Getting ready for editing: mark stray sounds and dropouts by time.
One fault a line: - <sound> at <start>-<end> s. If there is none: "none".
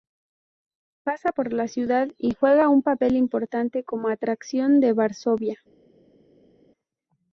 none